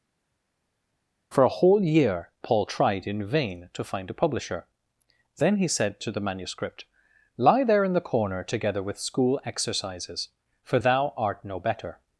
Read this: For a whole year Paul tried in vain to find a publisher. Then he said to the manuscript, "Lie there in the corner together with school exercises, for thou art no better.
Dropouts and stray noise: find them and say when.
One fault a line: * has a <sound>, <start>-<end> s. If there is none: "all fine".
all fine